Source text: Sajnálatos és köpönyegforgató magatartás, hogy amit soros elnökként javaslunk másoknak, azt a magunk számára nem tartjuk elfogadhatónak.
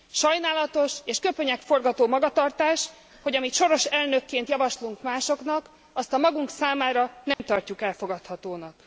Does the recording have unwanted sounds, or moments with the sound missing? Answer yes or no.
yes